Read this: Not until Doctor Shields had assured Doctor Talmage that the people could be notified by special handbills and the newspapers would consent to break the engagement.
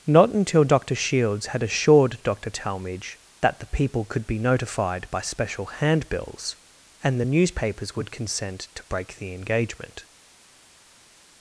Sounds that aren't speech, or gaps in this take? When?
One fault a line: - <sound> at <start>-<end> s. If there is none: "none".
none